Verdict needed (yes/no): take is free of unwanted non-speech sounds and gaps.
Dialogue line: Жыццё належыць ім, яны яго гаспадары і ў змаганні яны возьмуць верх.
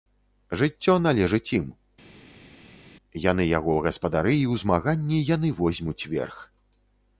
yes